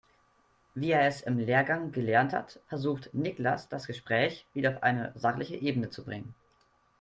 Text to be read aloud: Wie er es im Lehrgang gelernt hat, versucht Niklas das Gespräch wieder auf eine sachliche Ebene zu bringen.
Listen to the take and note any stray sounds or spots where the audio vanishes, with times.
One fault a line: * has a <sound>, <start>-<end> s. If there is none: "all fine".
all fine